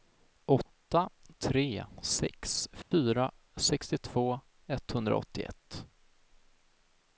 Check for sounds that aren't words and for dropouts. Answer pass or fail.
fail